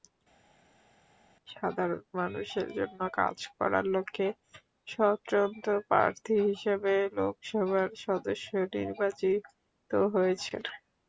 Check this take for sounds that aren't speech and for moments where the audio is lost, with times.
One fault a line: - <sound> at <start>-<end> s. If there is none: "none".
none